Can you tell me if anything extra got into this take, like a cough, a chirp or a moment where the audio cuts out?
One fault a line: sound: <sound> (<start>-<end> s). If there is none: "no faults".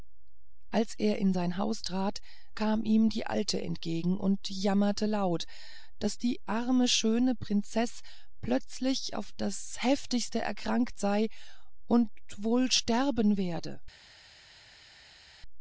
no faults